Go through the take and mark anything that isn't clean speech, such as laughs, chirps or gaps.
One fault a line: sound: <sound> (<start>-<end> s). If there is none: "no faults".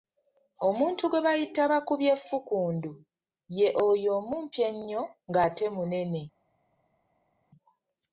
no faults